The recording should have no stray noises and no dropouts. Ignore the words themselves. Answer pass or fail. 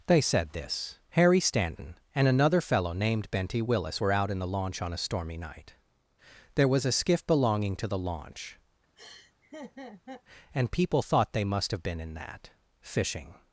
fail